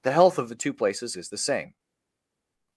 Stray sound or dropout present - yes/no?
no